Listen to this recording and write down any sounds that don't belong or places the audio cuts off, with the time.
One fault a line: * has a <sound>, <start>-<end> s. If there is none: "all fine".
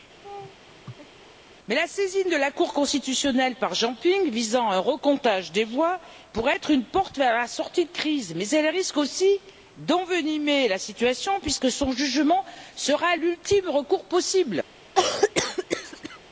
* has a laugh, 0.2-1.2 s
* has a cough, 15.0-16.2 s